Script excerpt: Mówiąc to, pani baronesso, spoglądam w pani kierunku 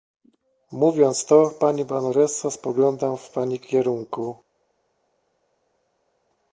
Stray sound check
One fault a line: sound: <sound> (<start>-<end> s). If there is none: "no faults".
no faults